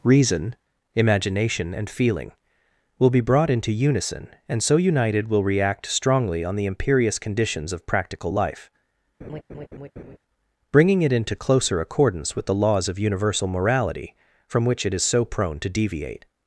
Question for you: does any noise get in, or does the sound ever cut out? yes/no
yes